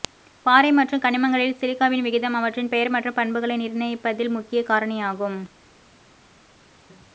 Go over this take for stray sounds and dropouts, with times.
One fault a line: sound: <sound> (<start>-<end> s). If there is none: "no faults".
no faults